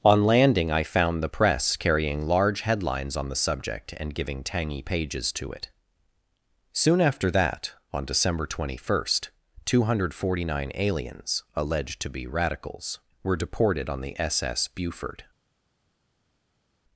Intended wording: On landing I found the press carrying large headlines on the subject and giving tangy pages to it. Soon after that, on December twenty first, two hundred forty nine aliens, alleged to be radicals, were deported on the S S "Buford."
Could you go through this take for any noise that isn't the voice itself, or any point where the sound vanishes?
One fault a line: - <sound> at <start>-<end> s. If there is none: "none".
none